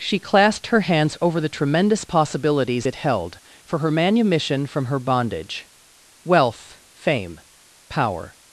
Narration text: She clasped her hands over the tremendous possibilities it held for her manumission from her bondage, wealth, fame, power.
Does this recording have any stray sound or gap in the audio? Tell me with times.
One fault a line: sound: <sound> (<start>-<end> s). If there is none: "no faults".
no faults